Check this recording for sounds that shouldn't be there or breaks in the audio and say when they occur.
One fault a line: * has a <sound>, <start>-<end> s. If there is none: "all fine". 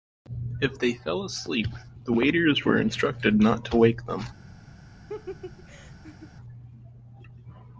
* has a laugh, 5.1-6.3 s